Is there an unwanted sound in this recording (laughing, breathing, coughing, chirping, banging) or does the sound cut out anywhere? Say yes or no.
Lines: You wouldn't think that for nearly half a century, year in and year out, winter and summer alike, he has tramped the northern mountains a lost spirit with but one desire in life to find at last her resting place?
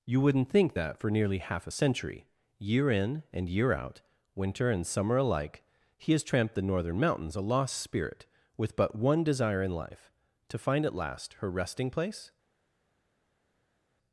no